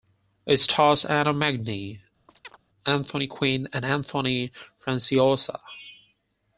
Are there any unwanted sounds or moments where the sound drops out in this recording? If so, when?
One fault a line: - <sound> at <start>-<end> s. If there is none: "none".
- chirp at 2.3-2.6 s